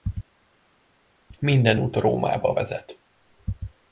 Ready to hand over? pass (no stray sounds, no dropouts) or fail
pass